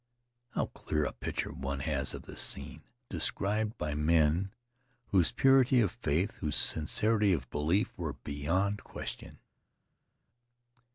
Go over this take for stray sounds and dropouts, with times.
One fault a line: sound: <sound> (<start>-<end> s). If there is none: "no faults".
no faults